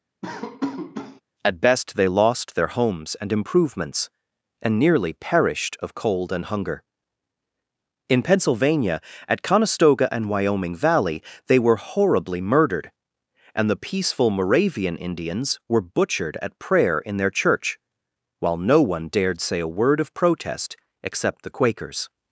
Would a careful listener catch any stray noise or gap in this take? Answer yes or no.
yes